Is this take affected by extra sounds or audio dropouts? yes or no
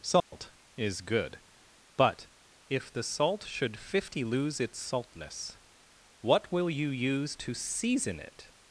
yes